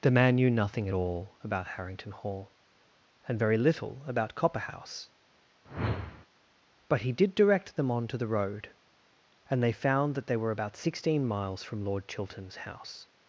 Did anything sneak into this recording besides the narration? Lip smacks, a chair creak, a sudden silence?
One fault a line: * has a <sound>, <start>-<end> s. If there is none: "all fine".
* has a whoosh, 5.6-6.3 s